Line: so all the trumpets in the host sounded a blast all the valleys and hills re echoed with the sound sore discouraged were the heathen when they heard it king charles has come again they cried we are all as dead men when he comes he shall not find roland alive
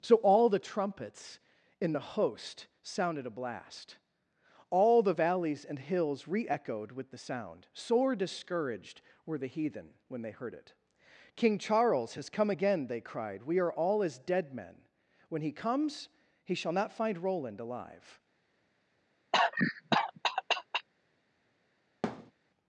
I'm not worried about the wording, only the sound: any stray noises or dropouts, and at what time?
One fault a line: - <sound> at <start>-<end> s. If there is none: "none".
- cough at 19.3-20.9 s
- thud at 22.0-22.3 s